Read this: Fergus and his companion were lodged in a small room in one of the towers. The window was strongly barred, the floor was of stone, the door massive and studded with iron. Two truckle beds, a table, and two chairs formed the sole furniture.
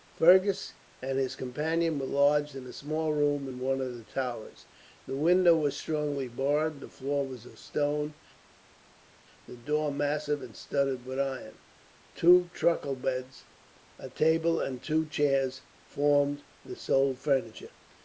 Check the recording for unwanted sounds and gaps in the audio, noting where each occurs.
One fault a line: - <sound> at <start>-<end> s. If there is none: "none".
none